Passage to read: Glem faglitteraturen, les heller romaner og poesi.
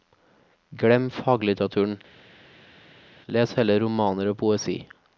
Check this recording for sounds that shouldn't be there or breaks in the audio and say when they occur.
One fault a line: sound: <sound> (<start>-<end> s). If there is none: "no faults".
no faults